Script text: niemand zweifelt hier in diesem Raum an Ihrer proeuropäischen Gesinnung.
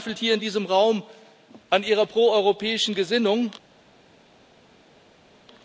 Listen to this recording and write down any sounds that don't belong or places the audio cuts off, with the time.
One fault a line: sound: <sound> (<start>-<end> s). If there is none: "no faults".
no faults